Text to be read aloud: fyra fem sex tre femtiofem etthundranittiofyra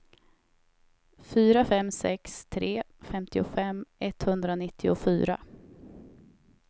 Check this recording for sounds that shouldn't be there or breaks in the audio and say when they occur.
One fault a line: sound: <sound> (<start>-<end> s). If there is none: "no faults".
no faults